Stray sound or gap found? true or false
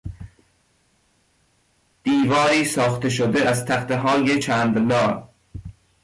false